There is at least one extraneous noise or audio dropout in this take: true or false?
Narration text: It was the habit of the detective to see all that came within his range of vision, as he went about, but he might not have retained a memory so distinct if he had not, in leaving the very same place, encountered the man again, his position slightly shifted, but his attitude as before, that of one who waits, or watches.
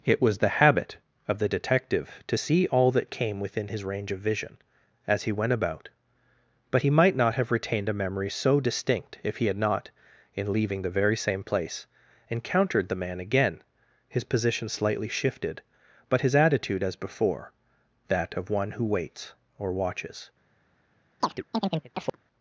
true